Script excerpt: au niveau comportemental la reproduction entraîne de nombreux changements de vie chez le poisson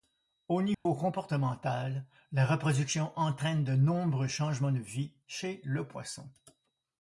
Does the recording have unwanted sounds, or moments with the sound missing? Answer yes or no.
yes